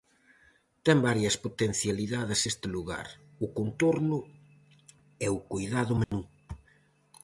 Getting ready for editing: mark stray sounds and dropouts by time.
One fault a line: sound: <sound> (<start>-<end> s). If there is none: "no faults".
sound: dropout (6.0-6.1 s)